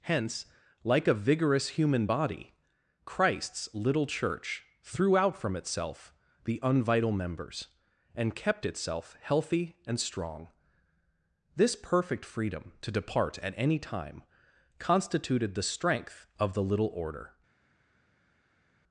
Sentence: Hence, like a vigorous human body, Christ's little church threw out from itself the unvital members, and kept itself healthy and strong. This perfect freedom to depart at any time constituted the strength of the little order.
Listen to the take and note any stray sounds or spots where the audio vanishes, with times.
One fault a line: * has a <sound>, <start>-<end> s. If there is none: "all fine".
all fine